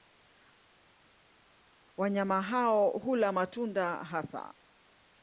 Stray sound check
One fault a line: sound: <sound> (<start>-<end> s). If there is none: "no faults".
no faults